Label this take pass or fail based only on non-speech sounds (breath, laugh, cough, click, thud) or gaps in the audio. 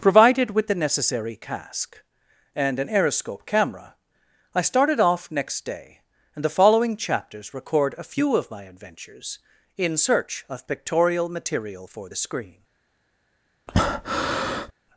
fail